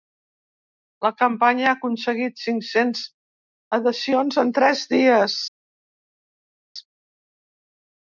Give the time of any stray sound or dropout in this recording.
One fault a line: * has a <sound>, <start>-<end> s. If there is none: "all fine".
all fine